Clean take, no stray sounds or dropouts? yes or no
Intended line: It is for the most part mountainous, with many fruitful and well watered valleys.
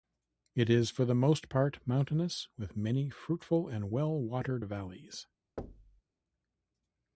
no